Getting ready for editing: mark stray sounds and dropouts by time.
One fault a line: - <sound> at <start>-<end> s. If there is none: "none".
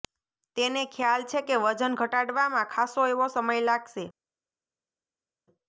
none